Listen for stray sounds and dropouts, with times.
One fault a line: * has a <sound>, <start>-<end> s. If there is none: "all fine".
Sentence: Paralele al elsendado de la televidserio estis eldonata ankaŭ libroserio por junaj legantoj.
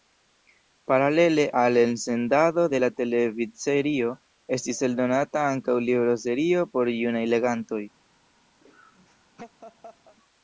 * has a laugh, 8.6-10.2 s